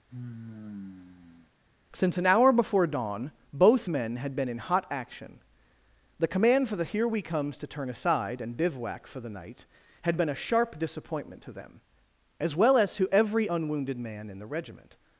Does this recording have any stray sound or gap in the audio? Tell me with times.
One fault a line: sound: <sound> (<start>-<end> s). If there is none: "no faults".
sound: sigh (0.1-1.5 s)